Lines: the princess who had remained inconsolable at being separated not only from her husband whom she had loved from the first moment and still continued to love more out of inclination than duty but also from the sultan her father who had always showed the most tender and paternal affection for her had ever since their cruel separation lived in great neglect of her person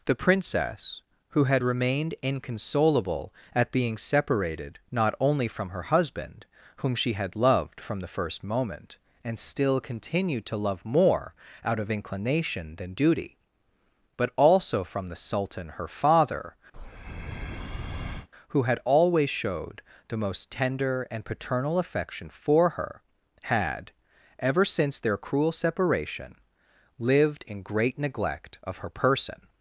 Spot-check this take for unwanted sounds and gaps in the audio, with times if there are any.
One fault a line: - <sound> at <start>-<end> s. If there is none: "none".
- breath at 16.7-18.3 s